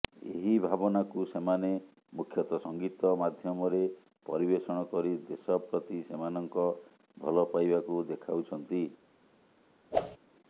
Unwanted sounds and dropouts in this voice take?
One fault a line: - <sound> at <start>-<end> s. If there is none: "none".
- whoosh at 9.9-10.2 s